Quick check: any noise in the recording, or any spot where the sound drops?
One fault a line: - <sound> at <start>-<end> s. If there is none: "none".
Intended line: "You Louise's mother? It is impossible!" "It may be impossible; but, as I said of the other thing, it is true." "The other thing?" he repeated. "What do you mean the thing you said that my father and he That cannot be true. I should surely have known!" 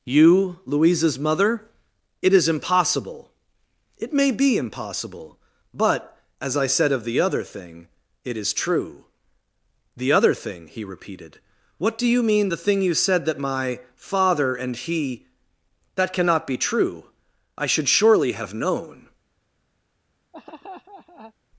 - laugh at 20.3-21.3 s